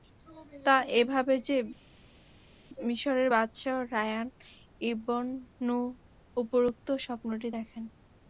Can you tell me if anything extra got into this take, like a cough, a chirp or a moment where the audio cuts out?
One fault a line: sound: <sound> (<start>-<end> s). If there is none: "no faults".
no faults